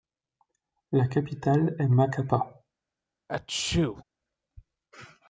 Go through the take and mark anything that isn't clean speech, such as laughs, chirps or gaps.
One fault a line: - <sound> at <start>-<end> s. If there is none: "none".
- sneeze at 3.3-4.0 s